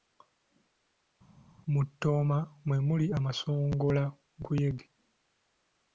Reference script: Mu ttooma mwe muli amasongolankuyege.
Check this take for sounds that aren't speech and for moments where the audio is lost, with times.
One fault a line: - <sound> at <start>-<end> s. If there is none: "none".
none